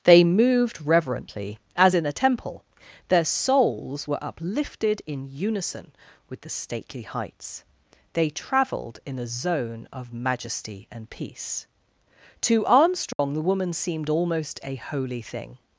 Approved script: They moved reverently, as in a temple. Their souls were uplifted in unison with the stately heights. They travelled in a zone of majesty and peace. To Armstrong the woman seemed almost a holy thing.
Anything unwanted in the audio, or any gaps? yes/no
yes